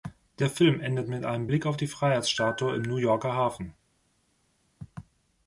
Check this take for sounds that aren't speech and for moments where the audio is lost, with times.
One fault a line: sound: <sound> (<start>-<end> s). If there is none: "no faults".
no faults